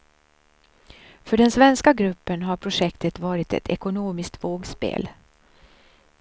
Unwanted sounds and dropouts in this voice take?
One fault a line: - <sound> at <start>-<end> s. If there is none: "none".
none